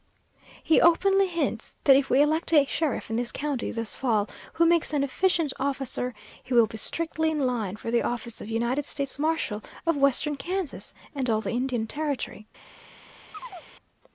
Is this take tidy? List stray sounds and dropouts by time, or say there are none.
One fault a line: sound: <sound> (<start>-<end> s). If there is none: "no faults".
sound: chirp (13.3-13.7 s)